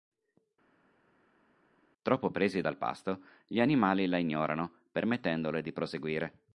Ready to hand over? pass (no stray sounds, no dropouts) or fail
pass